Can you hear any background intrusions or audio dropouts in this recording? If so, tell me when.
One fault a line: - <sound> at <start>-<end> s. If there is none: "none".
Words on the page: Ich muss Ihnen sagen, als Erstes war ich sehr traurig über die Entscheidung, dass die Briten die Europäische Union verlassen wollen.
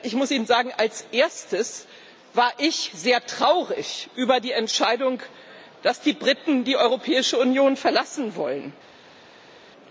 none